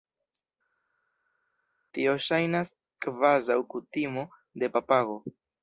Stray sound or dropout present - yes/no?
no